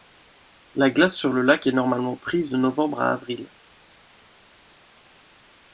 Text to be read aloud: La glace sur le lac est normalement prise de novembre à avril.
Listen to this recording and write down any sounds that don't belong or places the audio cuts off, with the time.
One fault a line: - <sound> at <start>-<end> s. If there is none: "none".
none